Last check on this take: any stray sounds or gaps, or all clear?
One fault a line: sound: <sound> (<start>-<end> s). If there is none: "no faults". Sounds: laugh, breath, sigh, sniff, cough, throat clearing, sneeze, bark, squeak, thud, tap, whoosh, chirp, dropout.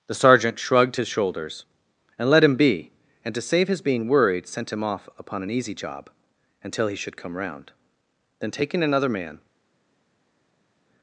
no faults